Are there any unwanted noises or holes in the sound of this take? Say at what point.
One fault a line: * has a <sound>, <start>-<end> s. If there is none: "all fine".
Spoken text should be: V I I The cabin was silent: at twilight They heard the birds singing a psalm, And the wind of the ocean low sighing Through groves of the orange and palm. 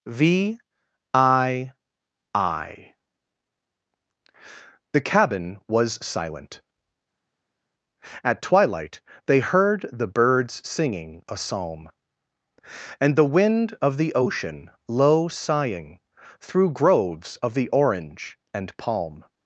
all fine